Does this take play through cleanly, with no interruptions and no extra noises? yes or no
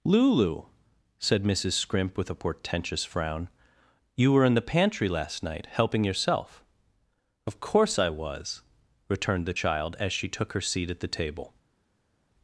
yes